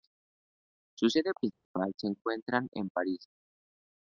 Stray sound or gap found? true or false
true